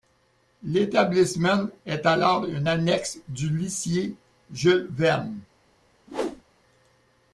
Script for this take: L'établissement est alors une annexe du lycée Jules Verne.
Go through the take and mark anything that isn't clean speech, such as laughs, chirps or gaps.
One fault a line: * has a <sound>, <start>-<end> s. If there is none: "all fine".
* has a whoosh, 6.1-6.4 s